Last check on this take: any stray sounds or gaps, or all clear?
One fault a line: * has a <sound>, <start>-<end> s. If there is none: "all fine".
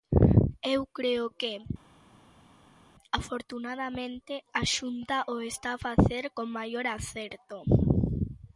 all fine